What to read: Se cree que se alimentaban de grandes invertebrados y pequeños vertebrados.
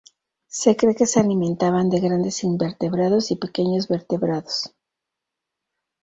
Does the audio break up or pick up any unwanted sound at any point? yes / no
no